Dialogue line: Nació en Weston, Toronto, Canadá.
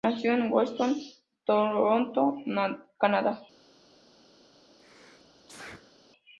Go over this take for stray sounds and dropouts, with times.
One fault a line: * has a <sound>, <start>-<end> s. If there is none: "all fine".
* has a sneeze, 4.8-5.9 s